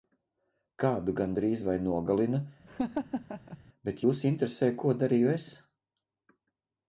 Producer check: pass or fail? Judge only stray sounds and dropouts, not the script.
fail